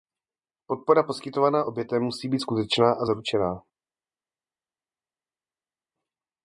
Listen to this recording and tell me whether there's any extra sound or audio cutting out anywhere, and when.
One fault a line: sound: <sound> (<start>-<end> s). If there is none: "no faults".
no faults